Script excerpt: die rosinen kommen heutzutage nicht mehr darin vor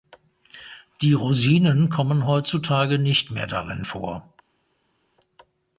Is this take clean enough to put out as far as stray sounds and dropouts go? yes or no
yes